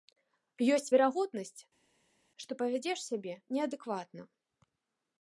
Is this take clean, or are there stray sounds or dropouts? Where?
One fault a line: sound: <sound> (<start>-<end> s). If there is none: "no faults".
no faults